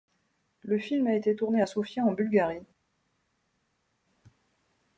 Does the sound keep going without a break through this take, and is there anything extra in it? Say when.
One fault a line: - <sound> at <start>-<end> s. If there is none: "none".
none